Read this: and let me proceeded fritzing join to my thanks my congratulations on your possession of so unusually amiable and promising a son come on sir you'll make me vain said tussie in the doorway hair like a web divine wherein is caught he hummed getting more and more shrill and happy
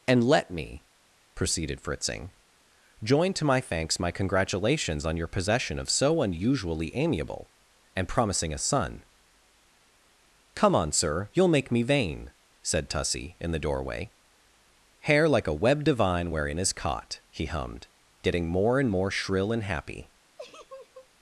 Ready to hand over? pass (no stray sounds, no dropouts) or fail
fail